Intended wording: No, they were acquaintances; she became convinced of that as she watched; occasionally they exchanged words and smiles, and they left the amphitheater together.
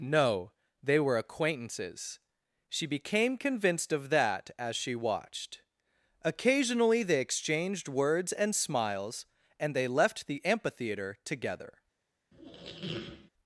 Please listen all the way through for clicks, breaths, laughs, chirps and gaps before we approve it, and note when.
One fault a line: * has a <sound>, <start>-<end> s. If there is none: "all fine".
* has a squeak, 12.3-13.3 s